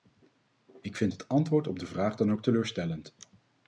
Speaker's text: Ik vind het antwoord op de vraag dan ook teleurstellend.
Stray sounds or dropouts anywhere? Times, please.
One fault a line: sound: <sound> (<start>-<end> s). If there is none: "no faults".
no faults